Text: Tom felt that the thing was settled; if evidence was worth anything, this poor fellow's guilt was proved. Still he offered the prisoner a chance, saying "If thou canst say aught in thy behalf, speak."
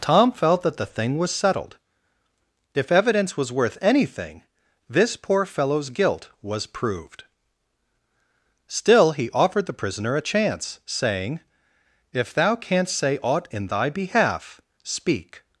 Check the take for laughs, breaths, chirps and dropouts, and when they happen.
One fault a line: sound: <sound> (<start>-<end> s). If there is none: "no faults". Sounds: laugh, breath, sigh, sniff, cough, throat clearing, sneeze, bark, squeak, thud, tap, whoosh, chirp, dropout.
no faults